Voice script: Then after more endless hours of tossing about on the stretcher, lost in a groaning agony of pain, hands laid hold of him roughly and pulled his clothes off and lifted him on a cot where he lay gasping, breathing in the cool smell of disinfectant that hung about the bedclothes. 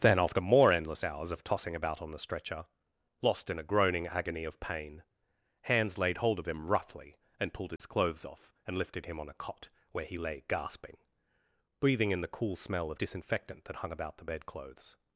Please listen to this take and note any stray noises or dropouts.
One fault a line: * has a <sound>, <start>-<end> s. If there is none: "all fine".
* has a dropout, 7.8-7.8 s